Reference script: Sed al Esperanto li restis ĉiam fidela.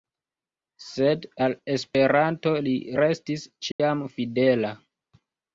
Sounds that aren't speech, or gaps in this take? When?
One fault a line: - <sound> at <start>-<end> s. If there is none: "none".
- dropout at 3.7-3.8 s